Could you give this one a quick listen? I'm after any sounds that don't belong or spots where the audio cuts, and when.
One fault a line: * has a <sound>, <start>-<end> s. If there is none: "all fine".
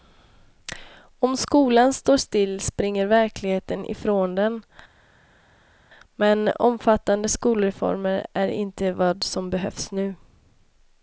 all fine